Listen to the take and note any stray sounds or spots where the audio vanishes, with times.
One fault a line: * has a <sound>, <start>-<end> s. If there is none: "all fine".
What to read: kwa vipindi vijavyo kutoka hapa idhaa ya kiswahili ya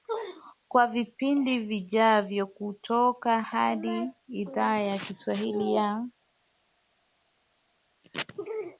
all fine